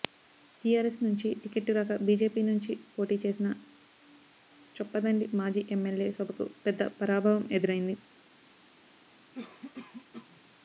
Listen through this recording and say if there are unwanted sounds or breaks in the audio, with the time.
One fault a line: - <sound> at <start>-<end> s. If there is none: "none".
- cough at 9.3-10.4 s